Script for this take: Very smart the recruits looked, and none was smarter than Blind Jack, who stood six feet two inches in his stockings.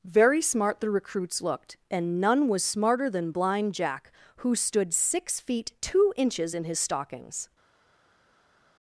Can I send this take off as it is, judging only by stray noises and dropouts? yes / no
yes